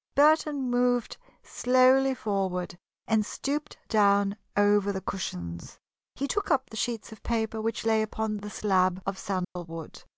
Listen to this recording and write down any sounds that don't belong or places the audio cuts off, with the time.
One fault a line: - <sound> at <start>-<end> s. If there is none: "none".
- dropout at 9.4-9.6 s